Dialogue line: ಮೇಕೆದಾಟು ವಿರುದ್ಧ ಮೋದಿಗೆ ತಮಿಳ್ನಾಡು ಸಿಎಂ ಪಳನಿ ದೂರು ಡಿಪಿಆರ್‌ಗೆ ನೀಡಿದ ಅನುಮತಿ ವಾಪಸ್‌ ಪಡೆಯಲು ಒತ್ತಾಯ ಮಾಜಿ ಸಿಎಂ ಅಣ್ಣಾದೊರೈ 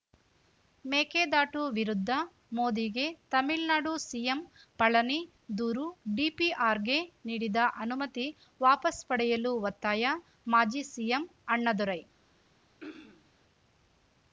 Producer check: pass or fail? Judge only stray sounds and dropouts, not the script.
fail